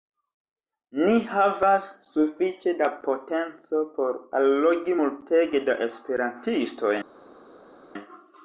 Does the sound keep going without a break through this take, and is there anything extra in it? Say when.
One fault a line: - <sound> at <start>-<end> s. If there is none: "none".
none